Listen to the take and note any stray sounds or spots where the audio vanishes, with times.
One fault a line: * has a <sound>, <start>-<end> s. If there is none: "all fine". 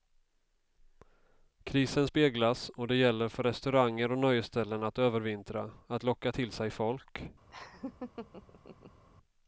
* has a laugh, 7.5-9.0 s